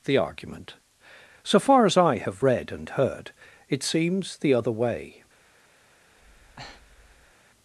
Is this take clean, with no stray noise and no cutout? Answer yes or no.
no